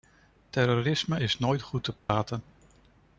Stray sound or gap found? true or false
true